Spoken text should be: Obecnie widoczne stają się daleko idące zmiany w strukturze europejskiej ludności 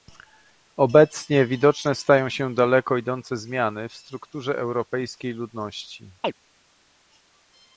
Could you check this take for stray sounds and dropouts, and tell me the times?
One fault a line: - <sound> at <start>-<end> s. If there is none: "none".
- chirp at 6.2-6.3 s